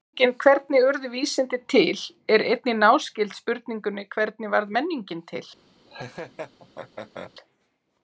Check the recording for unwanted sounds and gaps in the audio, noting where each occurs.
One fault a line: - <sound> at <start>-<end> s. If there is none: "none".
- laugh at 5.9-7.3 s